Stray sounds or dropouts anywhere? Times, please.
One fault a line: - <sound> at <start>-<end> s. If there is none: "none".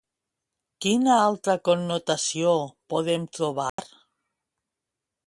- dropout at 3.7-3.8 s